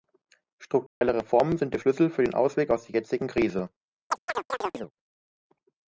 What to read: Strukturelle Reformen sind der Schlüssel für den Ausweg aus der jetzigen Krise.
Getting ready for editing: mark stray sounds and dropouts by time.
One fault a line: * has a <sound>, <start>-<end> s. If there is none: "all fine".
* has a dropout, 0.9-1.0 s
* has a chirp, 4.1-4.9 s